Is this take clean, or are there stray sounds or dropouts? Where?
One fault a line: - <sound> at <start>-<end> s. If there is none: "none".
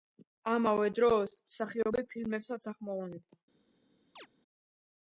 - chirp at 4.2-4.3 s